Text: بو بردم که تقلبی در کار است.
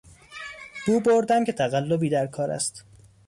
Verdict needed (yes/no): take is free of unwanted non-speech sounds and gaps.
yes